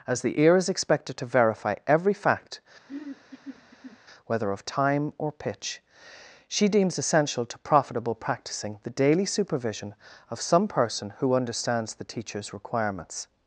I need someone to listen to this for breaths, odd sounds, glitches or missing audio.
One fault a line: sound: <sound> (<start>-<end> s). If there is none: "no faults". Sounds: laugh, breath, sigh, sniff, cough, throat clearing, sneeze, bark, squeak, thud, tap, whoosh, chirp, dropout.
sound: throat clearing (2.9-4.0 s)